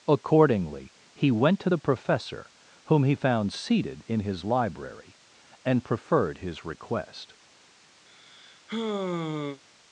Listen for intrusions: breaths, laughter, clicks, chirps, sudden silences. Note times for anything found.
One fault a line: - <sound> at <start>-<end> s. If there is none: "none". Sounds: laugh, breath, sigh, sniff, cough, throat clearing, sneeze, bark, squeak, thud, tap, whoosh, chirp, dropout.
- sigh at 8.1-9.6 s